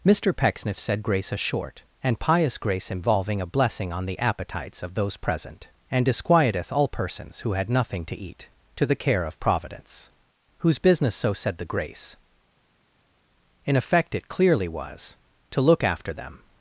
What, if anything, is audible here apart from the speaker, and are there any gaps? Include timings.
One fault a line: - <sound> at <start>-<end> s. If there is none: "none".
none